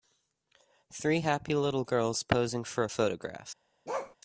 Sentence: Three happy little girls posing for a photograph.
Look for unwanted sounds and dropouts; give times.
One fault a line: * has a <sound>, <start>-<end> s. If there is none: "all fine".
* has a bark, 3.9-4.2 s